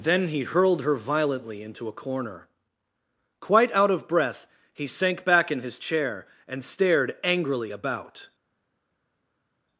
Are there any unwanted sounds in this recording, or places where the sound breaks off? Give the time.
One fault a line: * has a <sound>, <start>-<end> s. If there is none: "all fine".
all fine